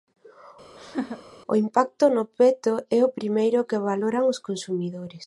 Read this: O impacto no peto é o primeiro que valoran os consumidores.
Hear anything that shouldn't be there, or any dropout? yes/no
yes